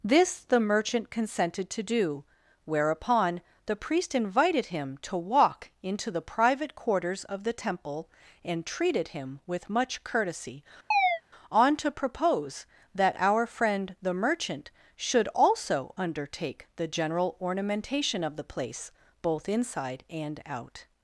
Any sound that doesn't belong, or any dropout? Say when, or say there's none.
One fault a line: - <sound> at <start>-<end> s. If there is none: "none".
- chirp at 10.9-11.2 s